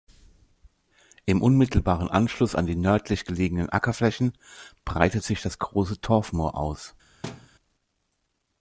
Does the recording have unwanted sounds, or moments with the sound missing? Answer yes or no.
yes